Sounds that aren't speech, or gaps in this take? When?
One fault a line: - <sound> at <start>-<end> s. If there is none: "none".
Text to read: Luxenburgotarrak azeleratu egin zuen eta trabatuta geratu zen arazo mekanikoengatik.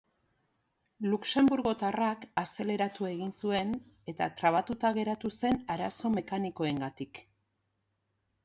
none